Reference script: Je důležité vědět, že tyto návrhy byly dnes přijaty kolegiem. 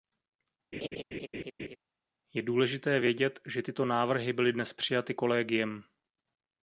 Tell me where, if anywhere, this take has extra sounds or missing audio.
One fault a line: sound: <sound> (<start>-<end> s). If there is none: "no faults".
sound: laugh (0.7-1.8 s)